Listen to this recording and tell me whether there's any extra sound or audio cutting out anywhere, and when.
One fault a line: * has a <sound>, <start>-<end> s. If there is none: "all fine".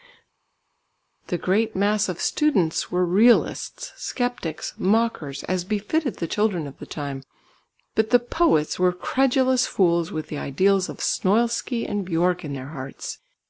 all fine